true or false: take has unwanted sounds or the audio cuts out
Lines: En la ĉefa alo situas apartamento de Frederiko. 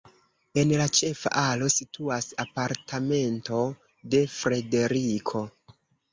false